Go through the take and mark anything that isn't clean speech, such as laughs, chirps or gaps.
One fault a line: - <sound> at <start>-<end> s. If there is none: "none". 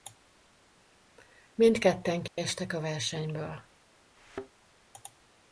- dropout at 2.3-2.4 s
- thud at 4.2-4.5 s